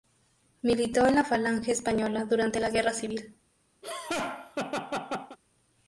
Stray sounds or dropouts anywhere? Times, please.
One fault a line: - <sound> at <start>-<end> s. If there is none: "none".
- laugh at 3.8-5.4 s